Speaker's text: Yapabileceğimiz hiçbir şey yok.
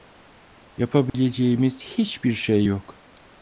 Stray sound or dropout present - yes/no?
yes